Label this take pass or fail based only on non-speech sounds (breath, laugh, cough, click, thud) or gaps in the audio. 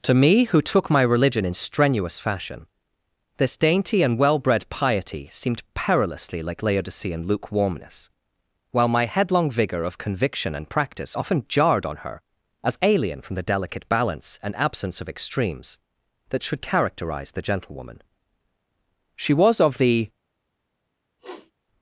fail